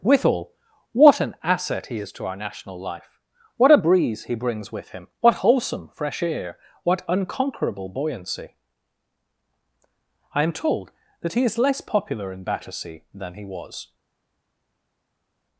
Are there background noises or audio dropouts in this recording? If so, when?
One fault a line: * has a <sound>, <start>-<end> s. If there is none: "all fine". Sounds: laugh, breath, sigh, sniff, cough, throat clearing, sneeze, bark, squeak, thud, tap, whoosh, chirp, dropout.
all fine